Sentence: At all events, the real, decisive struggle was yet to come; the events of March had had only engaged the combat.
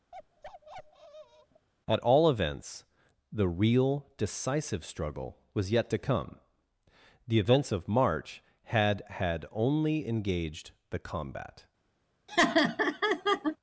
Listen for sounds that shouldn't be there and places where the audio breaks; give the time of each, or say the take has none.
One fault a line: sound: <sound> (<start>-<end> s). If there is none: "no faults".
sound: bark (0.1-1.7 s)
sound: laugh (12.3-13.6 s)